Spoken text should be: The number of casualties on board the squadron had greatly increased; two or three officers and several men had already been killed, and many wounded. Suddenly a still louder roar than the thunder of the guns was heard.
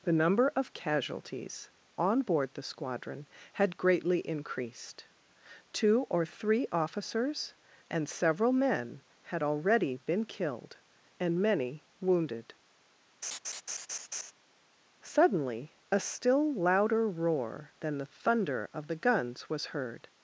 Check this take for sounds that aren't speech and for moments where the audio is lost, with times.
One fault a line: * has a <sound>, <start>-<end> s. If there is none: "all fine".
* has a laugh, 13.2-14.3 s